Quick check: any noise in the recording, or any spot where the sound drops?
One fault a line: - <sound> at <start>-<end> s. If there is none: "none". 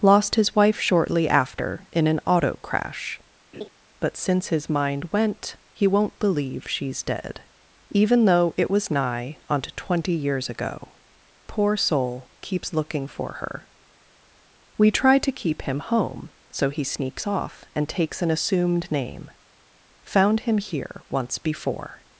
- laugh at 3.5-3.7 s